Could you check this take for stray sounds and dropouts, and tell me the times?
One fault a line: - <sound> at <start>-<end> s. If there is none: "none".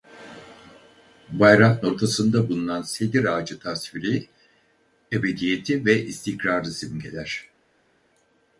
none